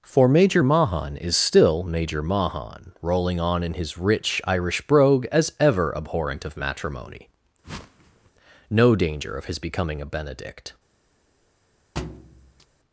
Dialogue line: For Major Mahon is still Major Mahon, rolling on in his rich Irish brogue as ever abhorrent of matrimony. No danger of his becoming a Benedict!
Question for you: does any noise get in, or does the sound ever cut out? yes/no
yes